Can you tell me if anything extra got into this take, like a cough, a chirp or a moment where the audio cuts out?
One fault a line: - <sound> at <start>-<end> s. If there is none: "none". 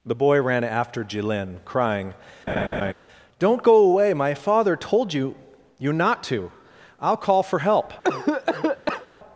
- laugh at 2.5-2.9 s
- cough at 8.0-9.1 s